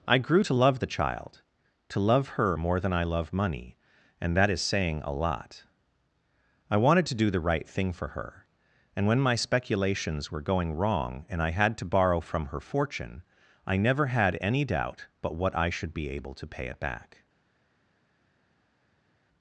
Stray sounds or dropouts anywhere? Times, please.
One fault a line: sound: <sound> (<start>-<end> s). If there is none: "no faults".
no faults